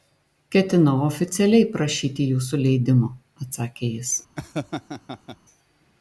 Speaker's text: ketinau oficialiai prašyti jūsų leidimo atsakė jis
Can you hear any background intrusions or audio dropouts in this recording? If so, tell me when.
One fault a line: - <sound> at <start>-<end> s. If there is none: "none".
- laugh at 4.4-5.4 s